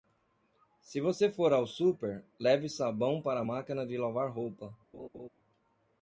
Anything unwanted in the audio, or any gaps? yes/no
yes